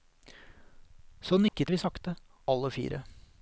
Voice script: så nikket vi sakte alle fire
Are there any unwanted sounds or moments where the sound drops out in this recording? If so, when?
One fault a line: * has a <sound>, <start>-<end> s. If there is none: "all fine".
* has a dropout, 1.5-1.5 s